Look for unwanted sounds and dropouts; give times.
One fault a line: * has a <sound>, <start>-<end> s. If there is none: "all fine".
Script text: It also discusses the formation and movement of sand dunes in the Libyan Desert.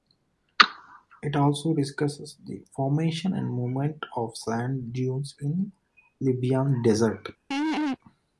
* has a laugh, 7.5-8.0 s